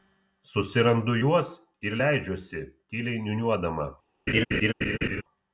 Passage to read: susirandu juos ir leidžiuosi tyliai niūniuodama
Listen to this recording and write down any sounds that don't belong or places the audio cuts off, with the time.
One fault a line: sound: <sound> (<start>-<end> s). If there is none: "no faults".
sound: laugh (4.3-5.2 s)